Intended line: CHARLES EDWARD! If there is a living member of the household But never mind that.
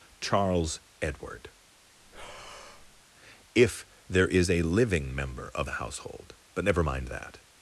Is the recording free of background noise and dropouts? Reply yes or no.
no